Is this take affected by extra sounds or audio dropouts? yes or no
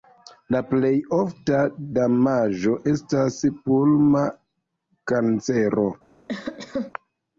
yes